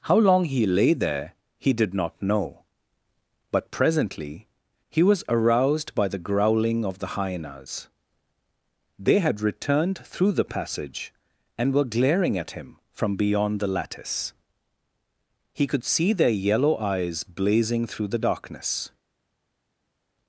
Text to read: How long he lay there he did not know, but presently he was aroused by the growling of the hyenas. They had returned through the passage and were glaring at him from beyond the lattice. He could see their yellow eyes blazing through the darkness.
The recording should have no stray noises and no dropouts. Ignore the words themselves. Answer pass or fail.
pass